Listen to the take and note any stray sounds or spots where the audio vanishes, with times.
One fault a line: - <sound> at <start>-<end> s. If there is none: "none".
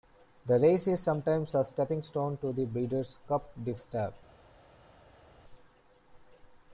none